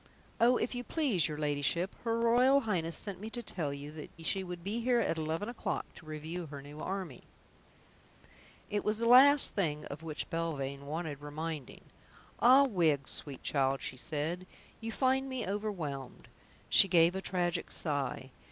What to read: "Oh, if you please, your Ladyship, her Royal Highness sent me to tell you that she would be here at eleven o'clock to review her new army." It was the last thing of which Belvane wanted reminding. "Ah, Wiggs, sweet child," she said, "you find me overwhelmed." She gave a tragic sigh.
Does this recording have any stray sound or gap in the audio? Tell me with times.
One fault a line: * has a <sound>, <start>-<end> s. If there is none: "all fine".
all fine